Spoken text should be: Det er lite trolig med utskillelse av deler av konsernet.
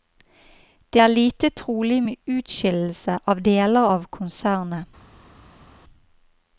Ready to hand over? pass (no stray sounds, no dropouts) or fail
pass